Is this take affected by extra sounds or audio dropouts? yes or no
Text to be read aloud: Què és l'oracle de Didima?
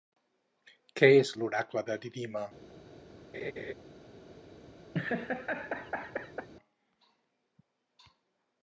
yes